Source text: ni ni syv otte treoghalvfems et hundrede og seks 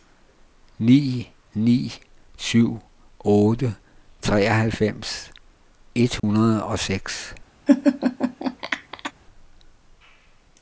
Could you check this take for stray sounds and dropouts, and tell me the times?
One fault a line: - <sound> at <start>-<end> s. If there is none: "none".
- dropout at 6.2-6.2 s
- laugh at 7.7-9.1 s